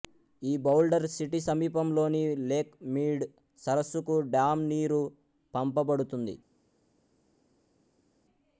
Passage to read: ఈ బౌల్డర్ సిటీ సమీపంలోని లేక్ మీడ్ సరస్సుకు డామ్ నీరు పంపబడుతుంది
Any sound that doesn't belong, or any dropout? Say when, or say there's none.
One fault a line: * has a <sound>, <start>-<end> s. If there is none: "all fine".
all fine